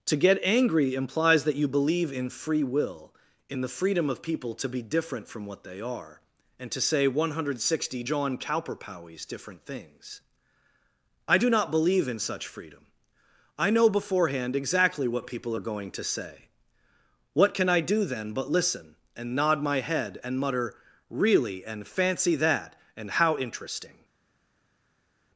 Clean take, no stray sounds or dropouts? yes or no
yes